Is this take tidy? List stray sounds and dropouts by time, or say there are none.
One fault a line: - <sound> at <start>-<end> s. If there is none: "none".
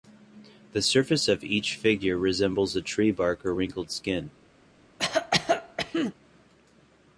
- cough at 5.0-6.1 s